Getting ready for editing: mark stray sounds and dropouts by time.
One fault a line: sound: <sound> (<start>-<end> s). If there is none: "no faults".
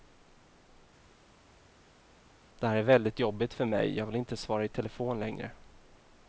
no faults